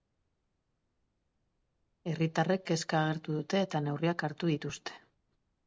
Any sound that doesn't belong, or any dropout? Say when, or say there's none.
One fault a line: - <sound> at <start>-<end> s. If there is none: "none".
none